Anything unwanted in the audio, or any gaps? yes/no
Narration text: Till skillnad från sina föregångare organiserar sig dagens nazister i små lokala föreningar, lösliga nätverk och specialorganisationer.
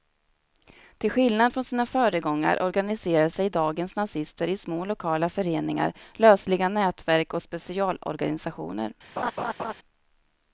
yes